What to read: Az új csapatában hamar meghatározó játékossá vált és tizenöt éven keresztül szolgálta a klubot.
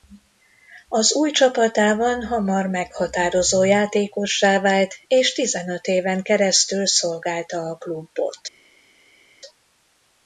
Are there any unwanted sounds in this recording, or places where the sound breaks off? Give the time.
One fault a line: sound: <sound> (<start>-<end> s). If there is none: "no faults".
no faults